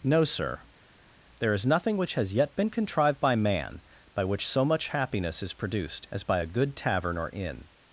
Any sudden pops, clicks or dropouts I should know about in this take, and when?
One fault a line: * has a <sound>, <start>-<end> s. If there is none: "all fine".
all fine